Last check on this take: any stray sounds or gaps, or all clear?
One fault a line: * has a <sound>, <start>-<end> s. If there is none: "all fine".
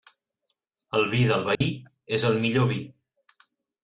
* has a dropout, 1.5-1.6 s